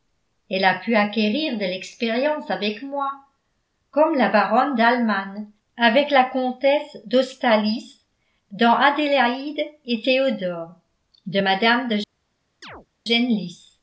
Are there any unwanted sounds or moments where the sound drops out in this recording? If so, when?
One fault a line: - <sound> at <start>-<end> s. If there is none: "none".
- chirp at 12.6-12.9 s